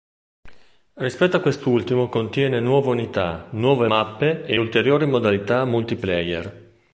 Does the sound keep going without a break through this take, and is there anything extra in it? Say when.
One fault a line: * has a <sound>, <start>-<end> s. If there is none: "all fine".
all fine